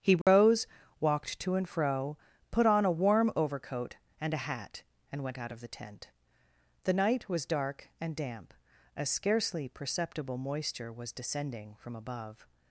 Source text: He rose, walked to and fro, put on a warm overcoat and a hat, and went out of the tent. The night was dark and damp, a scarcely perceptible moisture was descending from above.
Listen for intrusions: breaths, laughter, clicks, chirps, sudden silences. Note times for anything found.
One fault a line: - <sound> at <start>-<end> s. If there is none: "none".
- dropout at 0.2-0.3 s